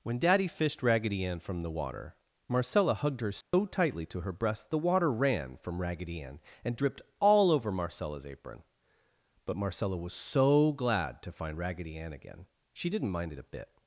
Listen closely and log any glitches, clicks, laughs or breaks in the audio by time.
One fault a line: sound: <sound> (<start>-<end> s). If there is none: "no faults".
sound: dropout (3.4-3.5 s)